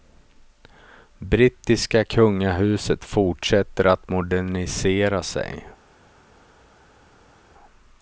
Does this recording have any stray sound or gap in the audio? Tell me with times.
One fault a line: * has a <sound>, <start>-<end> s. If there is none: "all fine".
all fine